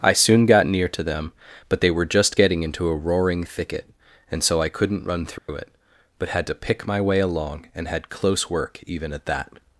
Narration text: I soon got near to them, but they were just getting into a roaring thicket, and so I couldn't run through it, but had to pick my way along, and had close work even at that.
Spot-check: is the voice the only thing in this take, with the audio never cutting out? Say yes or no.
no